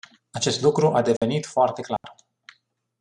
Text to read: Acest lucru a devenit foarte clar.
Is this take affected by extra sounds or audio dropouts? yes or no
yes